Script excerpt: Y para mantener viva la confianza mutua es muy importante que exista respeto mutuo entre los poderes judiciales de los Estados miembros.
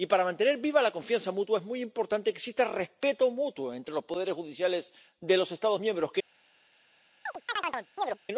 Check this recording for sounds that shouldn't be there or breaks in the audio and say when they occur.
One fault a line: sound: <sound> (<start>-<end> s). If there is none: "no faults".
sound: chirp (7.3-8.2 s)